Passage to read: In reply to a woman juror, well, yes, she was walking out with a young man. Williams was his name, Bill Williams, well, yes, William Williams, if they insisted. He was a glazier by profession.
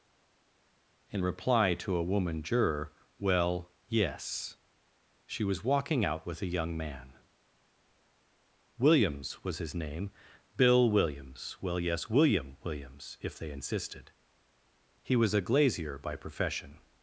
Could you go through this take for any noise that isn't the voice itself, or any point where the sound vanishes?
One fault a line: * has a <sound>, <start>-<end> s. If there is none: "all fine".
all fine